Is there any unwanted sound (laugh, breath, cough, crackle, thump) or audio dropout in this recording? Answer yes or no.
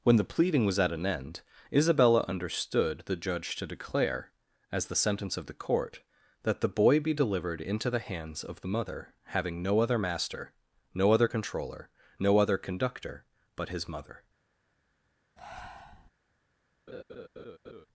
yes